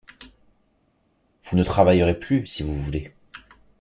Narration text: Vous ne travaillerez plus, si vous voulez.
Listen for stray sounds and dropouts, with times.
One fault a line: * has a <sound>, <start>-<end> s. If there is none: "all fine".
all fine